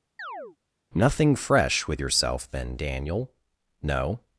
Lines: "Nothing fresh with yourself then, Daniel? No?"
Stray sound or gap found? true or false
true